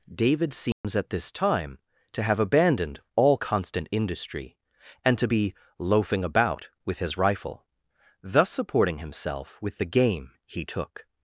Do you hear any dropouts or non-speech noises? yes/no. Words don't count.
yes